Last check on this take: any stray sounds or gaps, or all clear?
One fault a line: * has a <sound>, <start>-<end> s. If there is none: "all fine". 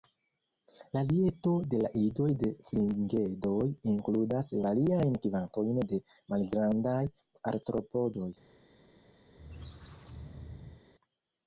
* has a squeak, 9.3-10.8 s